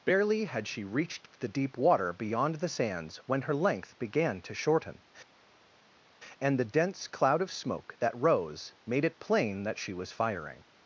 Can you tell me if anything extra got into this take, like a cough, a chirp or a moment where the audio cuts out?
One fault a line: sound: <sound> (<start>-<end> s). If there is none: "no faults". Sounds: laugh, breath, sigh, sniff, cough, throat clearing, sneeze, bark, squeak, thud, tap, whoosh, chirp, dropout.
no faults